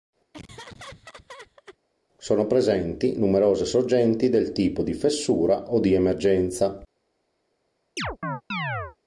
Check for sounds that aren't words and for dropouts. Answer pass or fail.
fail